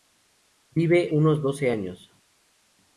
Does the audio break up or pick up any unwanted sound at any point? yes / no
no